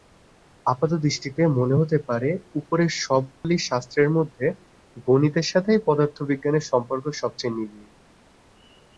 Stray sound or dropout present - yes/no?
yes